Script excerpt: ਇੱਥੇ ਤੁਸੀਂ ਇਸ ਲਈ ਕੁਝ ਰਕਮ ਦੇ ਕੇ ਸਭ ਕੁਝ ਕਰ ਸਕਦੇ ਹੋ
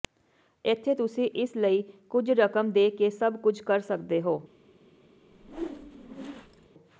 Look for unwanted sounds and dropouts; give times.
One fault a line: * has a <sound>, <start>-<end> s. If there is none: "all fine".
* has a whoosh, 5.3-6.7 s